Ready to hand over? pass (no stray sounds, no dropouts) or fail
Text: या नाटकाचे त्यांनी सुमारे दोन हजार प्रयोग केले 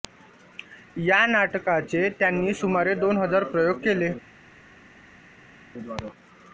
pass